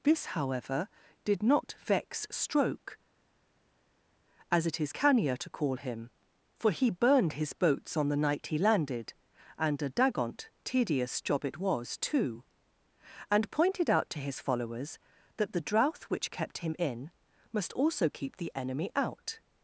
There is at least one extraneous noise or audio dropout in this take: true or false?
false